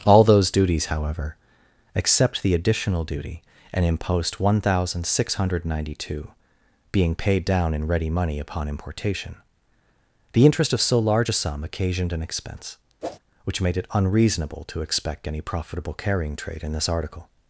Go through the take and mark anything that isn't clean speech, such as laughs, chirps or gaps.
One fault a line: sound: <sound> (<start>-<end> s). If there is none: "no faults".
sound: whoosh (13.0-13.2 s)